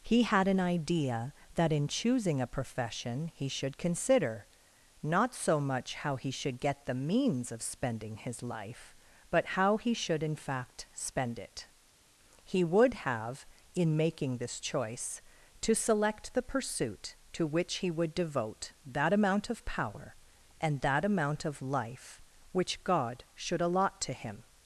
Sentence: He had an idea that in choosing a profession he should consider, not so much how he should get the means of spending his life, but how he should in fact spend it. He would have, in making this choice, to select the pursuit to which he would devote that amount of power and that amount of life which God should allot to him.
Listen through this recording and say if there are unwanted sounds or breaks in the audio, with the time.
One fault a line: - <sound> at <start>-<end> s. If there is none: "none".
none